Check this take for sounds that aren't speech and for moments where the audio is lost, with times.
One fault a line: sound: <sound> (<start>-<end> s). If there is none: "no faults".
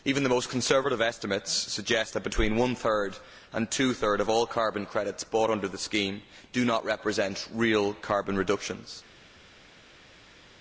no faults